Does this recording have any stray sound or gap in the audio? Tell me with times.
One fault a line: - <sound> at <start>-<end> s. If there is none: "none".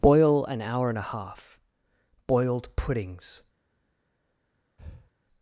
- breath at 4.8-5.1 s